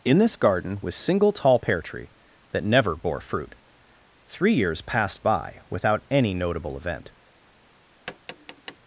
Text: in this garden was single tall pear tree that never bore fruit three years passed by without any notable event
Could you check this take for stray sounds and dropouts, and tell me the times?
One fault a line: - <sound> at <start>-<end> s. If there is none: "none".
- tap at 8.1-8.8 s